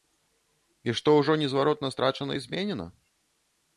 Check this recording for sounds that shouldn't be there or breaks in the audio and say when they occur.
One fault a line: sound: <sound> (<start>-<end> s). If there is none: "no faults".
no faults